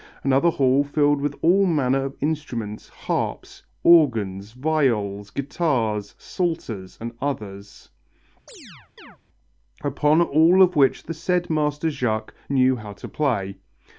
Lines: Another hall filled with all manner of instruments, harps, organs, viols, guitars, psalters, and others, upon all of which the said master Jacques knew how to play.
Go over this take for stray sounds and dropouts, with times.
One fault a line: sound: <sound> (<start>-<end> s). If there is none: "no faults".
sound: chirp (8.5-9.2 s)